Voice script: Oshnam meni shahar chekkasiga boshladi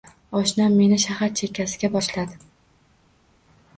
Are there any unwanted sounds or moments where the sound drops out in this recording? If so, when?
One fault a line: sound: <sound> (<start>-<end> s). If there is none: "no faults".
no faults